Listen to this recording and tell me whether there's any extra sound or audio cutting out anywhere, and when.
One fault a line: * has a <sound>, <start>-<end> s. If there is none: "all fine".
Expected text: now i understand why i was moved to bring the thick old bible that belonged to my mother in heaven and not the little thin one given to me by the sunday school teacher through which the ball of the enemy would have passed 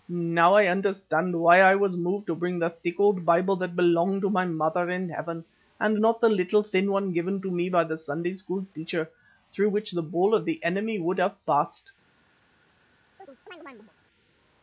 * has a chirp, 13.2-13.9 s